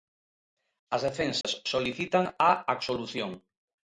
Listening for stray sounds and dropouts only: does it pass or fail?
fail